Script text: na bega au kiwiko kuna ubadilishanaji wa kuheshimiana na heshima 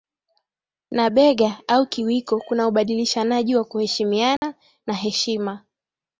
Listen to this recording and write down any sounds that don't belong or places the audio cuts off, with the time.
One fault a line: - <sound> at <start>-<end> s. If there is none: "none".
- dropout at 4.4-4.4 s